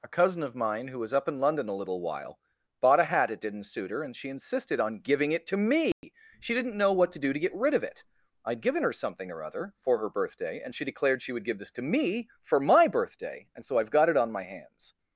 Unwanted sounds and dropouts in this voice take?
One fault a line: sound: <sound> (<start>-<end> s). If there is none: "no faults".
sound: dropout (5.9-6.0 s)